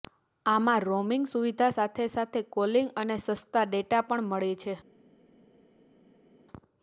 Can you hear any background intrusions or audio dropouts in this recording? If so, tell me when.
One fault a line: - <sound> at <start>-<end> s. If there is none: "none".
none